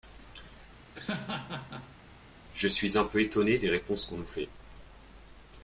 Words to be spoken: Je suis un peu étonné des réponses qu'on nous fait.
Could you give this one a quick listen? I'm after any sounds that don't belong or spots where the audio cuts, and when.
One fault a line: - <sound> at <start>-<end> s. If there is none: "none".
- laugh at 0.9-2.0 s